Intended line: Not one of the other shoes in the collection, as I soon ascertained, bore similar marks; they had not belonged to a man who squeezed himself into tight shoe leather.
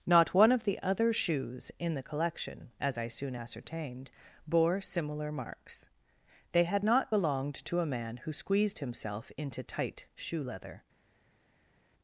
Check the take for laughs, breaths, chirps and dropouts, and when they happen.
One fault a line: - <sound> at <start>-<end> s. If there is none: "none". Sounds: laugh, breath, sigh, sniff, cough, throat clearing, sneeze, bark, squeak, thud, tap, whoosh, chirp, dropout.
none